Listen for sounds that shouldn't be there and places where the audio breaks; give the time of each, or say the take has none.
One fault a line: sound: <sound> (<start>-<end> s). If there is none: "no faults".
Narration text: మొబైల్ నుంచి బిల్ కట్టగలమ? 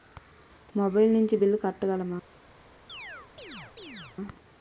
sound: chirp (2.9-4.2 s)